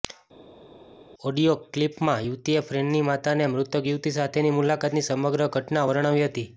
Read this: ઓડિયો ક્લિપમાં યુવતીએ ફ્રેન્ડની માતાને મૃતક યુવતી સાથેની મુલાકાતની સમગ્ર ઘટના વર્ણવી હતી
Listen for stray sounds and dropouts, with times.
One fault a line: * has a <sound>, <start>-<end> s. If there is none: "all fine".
all fine